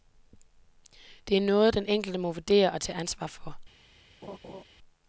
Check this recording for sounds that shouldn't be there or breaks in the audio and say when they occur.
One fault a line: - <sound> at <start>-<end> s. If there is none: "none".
- laugh at 4.2-4.6 s